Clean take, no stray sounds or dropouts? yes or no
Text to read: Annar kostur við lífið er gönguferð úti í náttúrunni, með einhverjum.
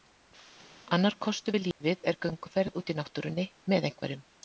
no